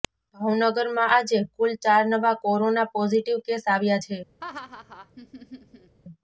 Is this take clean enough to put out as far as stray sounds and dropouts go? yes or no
no